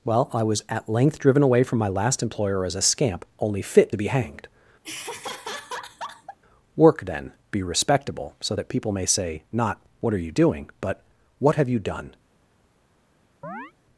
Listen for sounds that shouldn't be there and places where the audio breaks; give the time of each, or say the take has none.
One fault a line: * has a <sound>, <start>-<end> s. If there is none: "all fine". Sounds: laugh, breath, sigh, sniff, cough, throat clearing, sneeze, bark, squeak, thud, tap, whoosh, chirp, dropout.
* has a laugh, 4.8-6.4 s
* has a chirp, 13.4-13.7 s